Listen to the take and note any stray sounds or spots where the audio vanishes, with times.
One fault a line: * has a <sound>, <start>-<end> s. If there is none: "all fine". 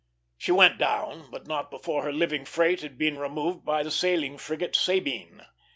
all fine